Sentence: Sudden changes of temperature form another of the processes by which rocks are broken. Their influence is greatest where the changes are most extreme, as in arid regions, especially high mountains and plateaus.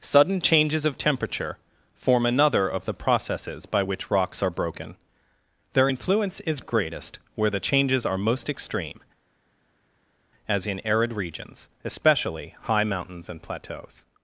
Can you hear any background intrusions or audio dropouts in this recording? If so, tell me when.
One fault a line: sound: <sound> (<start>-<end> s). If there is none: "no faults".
no faults